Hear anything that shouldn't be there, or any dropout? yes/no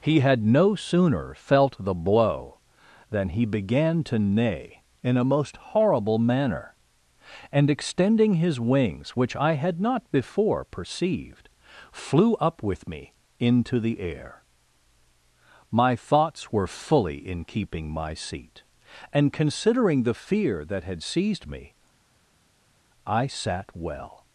no